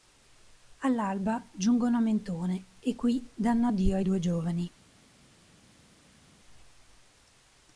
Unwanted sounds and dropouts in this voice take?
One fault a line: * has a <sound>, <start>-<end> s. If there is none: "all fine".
all fine